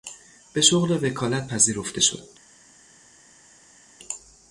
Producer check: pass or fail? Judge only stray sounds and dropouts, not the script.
pass